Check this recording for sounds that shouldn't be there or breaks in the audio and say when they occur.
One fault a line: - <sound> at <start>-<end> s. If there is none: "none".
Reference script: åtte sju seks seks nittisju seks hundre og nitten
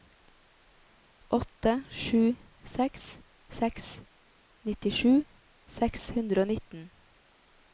none